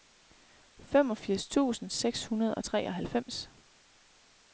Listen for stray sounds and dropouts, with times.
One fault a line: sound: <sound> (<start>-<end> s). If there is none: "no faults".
no faults